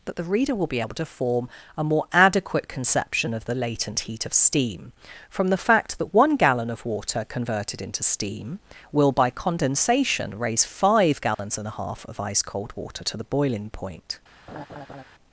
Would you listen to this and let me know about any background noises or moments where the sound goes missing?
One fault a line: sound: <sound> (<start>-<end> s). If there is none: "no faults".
sound: dropout (11.3-11.4 s)
sound: laugh (14.5-15.0 s)